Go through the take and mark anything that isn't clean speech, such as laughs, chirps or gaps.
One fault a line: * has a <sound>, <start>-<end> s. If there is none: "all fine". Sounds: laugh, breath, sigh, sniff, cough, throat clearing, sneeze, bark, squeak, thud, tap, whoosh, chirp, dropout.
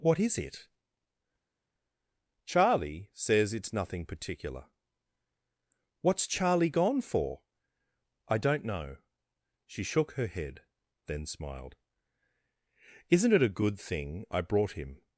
all fine